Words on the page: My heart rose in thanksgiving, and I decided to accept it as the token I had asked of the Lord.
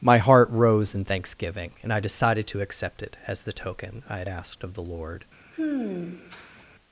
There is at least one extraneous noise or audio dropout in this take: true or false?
true